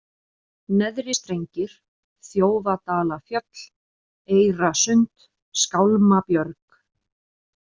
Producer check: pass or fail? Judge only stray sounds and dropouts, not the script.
pass